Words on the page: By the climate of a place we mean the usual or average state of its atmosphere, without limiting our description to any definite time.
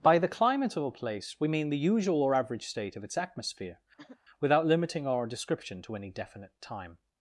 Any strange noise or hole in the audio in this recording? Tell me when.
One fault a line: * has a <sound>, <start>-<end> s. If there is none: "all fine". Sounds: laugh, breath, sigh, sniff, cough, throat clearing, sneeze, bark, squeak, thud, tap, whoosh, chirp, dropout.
* has a throat clearing, 4.0-4.2 s